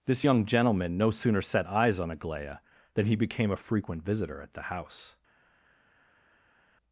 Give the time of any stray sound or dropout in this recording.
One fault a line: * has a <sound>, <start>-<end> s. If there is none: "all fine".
all fine